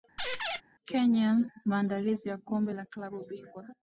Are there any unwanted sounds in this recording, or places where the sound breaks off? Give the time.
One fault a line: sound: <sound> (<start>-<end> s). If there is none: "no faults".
sound: squeak (0.2-0.6 s)